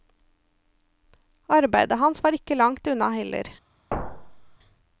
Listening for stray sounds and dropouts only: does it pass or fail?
fail